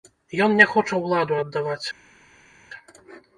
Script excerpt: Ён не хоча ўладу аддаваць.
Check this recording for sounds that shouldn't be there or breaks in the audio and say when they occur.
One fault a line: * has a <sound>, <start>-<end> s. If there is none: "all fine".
all fine